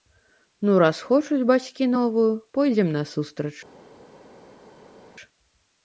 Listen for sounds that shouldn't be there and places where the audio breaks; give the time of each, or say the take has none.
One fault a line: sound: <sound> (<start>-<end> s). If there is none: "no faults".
no faults